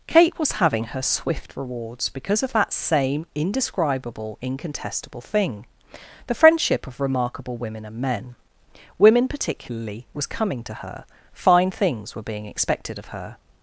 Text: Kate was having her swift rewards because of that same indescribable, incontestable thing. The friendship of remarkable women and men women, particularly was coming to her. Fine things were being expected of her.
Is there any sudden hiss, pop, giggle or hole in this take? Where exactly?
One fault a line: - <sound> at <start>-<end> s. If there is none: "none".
none